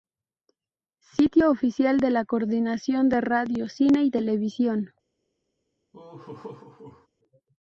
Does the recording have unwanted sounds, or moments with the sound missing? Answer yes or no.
yes